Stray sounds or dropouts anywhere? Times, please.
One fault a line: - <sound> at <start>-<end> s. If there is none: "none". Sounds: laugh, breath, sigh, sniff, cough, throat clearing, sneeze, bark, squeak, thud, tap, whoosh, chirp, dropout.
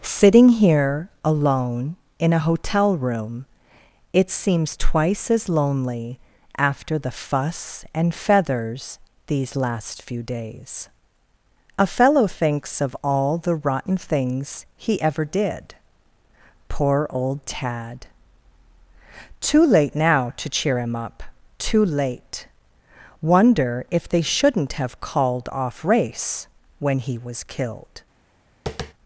- tap at 28.7-28.9 s